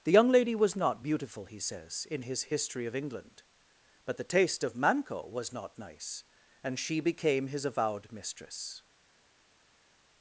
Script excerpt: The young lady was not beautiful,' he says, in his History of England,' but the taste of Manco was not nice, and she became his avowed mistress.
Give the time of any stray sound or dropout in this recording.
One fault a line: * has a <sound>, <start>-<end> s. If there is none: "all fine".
all fine